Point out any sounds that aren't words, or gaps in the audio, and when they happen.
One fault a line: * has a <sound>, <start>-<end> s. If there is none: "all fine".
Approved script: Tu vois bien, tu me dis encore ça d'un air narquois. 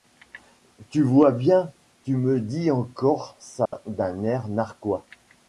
* has a dropout, 3.7-3.7 s